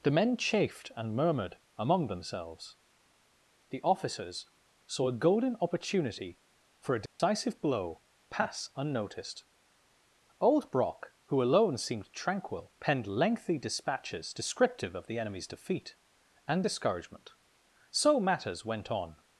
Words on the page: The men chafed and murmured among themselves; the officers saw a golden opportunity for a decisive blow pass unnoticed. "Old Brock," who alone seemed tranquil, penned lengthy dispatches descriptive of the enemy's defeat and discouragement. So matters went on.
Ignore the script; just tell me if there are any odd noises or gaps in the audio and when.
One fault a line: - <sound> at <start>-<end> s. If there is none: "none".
- dropout at 7.1-7.2 s